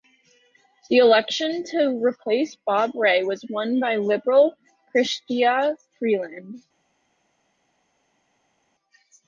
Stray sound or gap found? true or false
false